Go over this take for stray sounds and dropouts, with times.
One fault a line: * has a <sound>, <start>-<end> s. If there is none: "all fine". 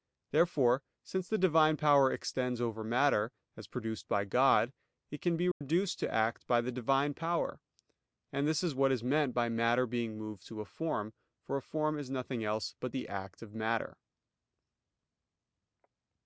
* has a dropout, 5.5-5.6 s